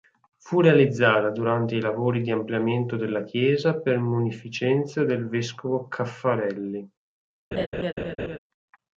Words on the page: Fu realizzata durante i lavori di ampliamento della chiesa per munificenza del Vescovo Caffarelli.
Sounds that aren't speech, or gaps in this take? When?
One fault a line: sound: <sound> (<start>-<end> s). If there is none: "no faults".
sound: laugh (7.5-8.4 s)